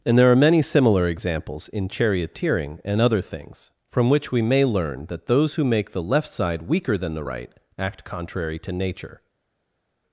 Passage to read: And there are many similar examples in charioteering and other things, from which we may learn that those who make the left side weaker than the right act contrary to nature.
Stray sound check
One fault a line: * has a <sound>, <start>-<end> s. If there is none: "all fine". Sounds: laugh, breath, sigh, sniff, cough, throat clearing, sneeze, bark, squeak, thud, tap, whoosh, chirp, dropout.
all fine